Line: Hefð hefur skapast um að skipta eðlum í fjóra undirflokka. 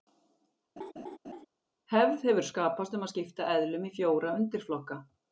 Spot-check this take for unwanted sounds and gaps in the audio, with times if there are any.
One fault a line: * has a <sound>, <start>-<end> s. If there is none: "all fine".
* has a laugh, 0.8-1.5 s